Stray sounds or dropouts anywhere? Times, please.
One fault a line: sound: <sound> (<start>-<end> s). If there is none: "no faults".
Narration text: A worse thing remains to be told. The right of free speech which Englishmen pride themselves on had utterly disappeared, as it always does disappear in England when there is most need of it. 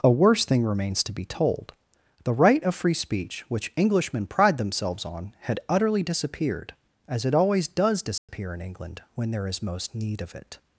sound: dropout (8.2-8.3 s)